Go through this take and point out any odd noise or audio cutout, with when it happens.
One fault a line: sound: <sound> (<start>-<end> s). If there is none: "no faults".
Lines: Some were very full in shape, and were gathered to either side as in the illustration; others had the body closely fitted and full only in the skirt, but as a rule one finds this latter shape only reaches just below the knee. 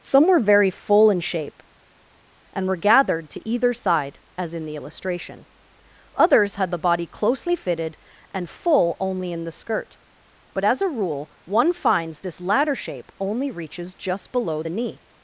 no faults